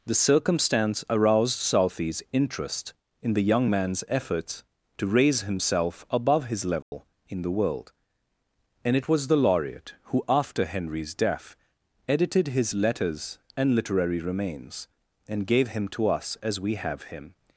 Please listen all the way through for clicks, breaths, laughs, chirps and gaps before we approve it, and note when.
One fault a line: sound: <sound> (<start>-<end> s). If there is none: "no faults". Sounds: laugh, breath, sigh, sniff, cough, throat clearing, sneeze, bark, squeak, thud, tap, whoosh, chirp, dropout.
sound: dropout (6.8-6.9 s)